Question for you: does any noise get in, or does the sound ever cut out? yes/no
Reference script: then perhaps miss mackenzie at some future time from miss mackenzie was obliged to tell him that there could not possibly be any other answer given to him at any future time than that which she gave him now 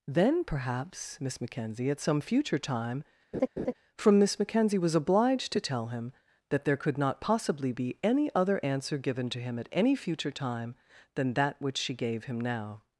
yes